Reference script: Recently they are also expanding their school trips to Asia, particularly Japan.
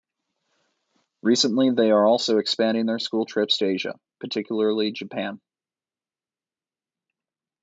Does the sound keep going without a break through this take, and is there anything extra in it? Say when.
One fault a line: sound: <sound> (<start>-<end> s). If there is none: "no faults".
no faults